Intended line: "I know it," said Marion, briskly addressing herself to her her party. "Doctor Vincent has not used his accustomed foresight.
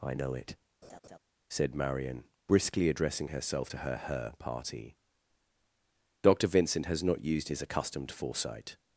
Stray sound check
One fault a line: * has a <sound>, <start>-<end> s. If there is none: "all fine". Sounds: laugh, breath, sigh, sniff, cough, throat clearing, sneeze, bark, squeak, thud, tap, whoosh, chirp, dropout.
* has a laugh, 0.8-1.2 s